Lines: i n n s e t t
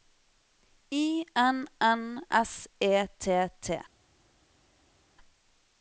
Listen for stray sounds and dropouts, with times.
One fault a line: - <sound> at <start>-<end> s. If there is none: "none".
none